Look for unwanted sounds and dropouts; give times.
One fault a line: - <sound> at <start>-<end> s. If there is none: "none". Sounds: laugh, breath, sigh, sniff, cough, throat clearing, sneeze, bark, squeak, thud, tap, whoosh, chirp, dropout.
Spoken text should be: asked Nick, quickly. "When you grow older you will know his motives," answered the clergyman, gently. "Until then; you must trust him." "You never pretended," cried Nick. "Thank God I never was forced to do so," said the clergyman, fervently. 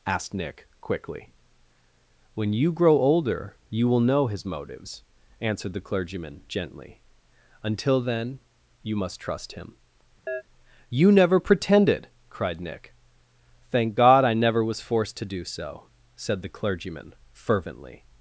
- chirp at 10.3-10.4 s